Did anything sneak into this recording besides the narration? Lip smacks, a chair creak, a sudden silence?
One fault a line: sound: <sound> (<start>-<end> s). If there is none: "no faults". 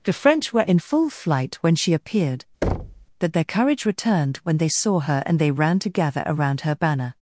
sound: thud (2.6-3.1 s)